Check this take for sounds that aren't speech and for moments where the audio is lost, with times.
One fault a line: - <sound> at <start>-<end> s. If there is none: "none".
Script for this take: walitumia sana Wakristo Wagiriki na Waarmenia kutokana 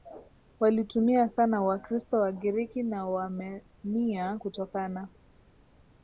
none